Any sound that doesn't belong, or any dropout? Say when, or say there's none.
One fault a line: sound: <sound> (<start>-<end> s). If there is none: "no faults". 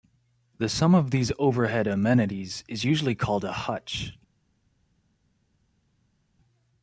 no faults